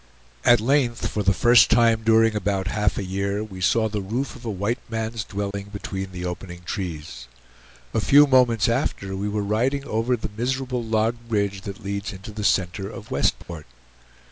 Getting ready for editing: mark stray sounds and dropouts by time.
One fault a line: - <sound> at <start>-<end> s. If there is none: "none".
- dropout at 5.5-5.5 s
- dropout at 13.4-13.5 s